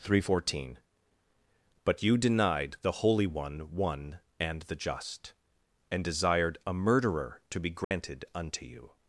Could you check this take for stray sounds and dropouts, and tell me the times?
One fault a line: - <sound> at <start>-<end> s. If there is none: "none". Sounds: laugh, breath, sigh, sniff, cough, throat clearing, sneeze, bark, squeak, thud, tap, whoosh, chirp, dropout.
- dropout at 7.8-7.9 s